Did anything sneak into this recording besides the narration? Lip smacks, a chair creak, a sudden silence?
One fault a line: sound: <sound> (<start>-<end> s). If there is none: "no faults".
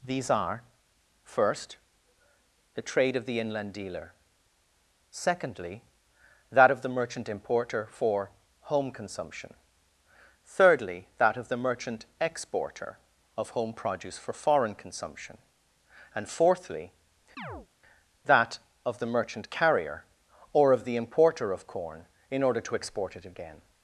sound: chirp (17.4-17.7 s)